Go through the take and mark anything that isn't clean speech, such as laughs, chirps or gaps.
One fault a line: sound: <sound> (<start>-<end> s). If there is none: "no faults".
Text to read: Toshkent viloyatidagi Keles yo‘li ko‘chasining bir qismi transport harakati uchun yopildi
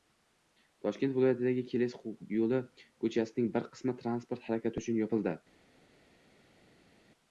no faults